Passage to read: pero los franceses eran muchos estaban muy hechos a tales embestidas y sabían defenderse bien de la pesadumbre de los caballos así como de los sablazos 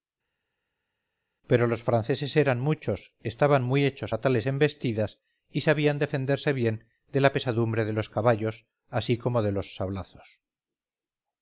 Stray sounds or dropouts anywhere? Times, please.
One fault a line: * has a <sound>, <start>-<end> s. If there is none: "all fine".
all fine